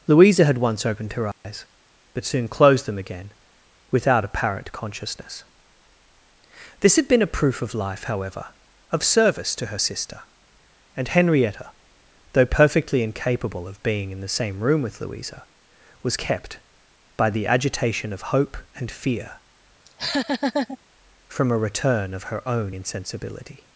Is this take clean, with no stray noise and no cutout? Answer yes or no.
no